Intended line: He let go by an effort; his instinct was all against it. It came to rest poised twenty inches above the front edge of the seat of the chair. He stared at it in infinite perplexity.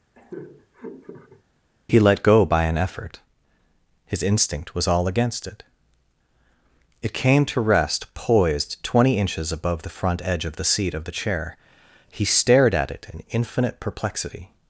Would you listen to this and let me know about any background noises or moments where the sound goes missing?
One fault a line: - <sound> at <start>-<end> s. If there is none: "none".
- laugh at 0.1-1.4 s